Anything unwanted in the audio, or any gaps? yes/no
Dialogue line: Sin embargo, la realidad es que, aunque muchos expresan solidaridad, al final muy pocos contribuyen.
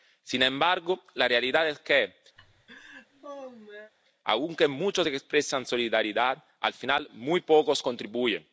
yes